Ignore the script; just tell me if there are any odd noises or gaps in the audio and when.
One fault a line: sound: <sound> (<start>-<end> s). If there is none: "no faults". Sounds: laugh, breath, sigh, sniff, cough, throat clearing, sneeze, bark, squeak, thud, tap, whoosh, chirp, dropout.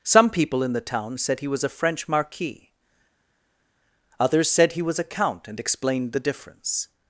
no faults